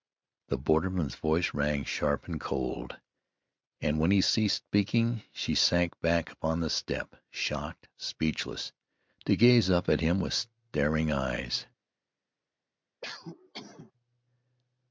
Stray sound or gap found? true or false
true